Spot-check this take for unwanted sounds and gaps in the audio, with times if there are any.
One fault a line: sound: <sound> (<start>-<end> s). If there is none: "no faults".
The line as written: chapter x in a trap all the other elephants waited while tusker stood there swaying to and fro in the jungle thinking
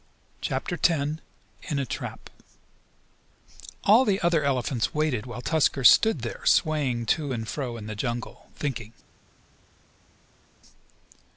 no faults